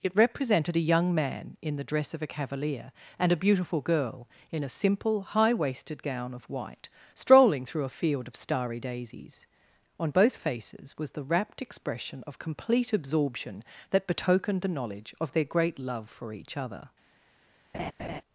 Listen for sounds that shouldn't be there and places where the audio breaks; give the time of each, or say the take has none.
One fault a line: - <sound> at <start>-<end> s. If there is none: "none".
- laugh at 17.7-18.2 s